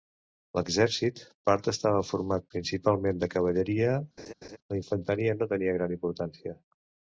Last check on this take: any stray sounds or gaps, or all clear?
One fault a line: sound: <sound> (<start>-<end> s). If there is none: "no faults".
sound: laugh (4.2-4.6 s)